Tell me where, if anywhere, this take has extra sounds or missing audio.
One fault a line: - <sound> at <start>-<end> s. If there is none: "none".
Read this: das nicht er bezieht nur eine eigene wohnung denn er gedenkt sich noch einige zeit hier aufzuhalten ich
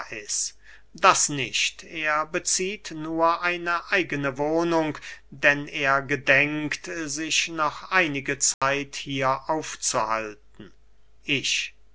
- dropout at 8.5-8.6 s